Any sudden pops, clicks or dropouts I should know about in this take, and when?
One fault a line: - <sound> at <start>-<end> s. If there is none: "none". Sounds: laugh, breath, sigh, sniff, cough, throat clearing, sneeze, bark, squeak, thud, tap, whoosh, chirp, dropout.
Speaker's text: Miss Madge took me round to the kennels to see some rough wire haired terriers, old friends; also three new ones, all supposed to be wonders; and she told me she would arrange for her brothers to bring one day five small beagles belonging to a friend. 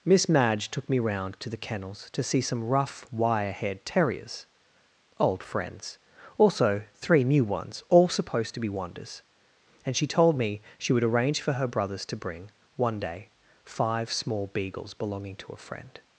none